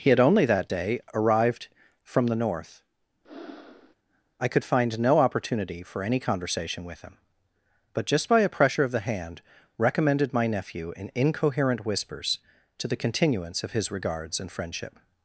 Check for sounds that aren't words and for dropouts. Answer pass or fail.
fail